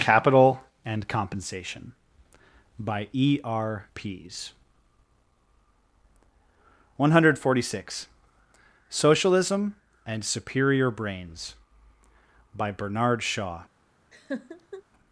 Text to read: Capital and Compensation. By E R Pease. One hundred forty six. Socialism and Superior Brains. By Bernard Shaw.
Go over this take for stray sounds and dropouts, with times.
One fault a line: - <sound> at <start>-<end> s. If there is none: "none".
- laugh at 14.1-14.8 s